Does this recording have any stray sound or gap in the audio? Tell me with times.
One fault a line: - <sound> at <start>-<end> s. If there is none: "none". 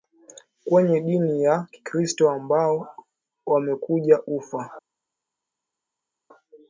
none